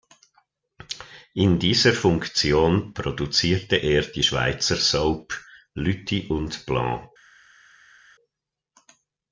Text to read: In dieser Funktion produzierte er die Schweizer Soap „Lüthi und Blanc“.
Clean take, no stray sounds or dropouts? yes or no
yes